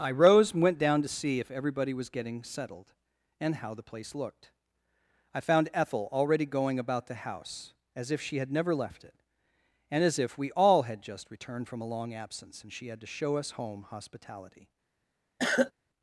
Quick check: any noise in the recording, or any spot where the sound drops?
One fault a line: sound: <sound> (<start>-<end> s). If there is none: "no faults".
sound: cough (15.4-15.7 s)